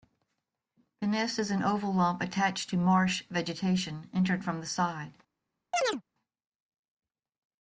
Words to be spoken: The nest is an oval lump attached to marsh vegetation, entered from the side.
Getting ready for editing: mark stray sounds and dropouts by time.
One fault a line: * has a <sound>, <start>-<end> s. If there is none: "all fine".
* has a chirp, 5.7-6.0 s